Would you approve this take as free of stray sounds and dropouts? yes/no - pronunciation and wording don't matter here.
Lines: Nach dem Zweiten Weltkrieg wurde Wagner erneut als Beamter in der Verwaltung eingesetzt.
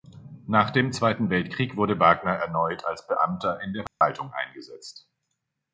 no